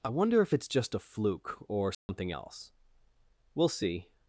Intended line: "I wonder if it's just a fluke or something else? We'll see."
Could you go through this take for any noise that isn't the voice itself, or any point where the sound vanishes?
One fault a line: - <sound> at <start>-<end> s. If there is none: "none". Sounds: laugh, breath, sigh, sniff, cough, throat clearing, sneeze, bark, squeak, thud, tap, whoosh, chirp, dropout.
- dropout at 1.9-2.1 s